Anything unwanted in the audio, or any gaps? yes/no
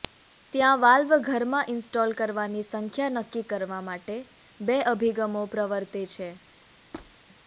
yes